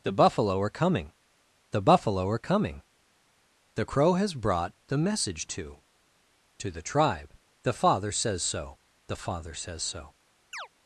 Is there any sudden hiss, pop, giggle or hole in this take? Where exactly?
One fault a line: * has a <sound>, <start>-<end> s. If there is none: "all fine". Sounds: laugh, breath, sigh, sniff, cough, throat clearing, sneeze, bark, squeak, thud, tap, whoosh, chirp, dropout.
* has a chirp, 10.5-10.7 s